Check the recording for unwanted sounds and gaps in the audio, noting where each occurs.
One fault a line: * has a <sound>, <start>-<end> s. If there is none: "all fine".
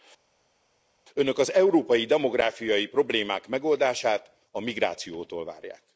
all fine